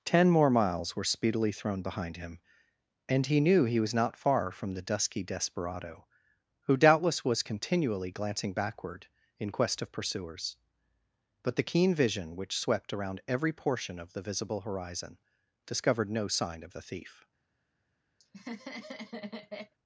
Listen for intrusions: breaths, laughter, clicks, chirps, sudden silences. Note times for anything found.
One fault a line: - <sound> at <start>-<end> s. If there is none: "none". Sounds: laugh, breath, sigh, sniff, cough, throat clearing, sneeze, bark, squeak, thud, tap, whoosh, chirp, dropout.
- laugh at 18.2-19.7 s